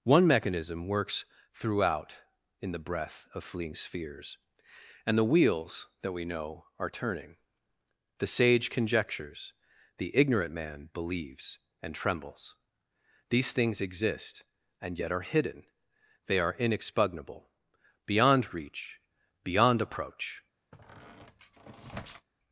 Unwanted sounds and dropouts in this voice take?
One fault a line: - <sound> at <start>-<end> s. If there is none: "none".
- squeak at 20.7-22.3 s